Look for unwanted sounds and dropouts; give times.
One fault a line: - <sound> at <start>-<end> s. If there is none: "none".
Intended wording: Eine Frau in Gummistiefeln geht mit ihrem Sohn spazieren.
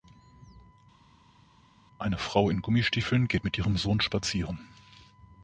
none